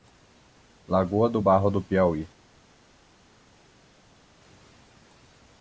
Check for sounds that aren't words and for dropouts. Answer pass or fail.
pass